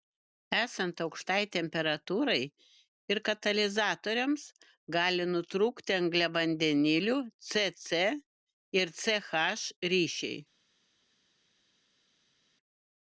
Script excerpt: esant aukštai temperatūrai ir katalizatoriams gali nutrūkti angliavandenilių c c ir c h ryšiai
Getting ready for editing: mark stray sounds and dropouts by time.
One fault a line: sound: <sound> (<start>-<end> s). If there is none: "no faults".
no faults